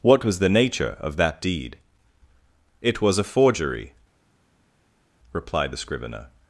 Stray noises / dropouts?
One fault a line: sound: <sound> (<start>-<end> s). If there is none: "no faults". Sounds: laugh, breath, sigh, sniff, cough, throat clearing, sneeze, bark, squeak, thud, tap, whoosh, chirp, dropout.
no faults